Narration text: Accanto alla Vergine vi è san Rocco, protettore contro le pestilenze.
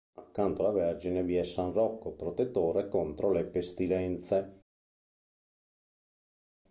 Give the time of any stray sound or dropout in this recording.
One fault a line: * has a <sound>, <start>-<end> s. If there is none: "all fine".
all fine